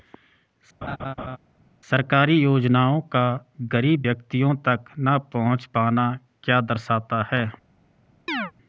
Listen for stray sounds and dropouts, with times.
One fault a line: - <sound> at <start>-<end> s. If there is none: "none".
- laugh at 0.8-1.4 s
- chirp at 8.3-8.5 s